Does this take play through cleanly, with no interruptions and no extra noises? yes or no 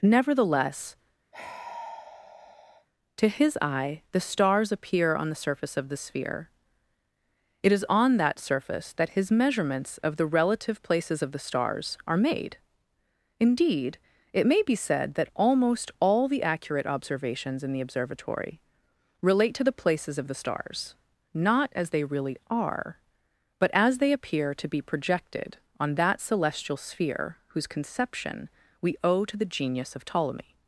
no